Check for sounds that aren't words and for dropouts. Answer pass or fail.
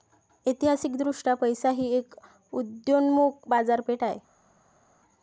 pass